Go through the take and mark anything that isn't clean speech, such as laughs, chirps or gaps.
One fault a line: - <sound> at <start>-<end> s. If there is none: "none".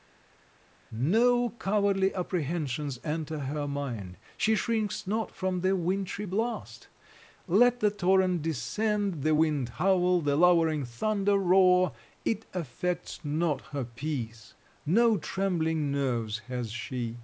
none